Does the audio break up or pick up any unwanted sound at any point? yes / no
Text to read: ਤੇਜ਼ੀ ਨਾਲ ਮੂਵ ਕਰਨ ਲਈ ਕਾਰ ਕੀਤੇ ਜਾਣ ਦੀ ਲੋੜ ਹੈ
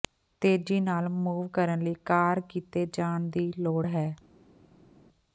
no